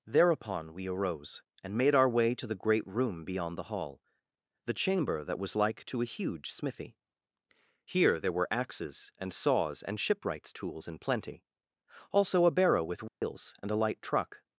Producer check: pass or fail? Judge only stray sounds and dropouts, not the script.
fail